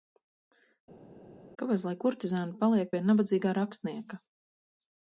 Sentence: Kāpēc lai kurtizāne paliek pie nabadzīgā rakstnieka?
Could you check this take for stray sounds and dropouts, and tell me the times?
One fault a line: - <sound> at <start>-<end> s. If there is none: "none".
none